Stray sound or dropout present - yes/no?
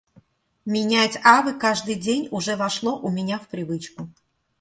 no